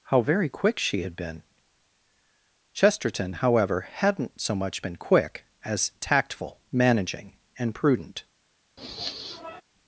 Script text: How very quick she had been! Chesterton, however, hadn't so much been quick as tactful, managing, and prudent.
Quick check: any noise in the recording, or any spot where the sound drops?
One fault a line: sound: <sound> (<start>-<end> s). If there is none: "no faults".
sound: sniff (8.8-9.6 s)